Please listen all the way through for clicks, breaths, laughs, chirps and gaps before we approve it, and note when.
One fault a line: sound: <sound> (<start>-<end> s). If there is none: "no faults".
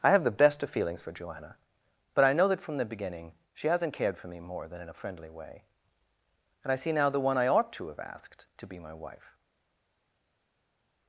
no faults